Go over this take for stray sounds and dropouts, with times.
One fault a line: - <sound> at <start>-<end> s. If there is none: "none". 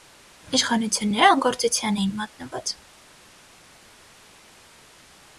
none